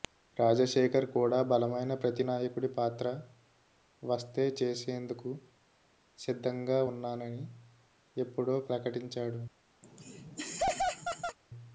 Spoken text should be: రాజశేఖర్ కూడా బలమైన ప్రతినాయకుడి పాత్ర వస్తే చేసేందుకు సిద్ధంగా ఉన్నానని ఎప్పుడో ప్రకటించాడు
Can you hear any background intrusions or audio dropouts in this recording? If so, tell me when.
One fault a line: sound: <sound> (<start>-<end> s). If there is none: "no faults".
sound: laugh (9.8-11.4 s)